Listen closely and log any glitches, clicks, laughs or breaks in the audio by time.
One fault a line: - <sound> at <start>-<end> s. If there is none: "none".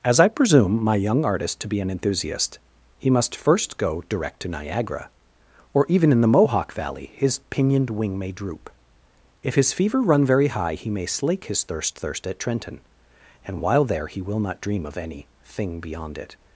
none